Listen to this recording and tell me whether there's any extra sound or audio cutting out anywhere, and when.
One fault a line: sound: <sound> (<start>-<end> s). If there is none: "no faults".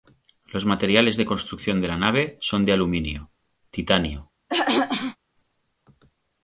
sound: throat clearing (4.5-5.2 s)